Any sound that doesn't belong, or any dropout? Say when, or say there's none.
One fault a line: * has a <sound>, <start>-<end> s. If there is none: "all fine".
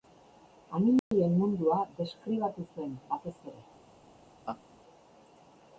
* has a dropout, 1.0-1.1 s
* has a laugh, 4.5-4.6 s